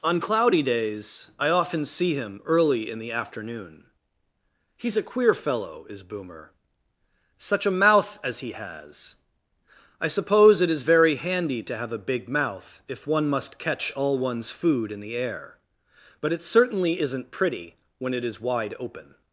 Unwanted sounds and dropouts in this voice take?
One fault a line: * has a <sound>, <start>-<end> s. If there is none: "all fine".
all fine